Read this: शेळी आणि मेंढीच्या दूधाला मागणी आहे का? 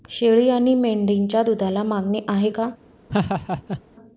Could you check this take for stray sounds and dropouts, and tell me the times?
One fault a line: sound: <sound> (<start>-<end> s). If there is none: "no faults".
sound: laugh (3.1-3.8 s)